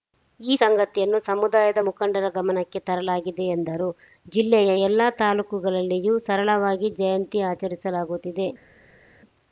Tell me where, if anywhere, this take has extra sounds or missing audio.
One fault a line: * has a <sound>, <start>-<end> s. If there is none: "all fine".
all fine